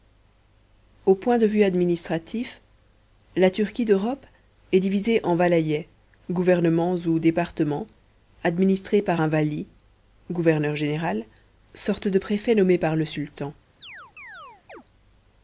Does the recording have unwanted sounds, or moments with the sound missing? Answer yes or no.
yes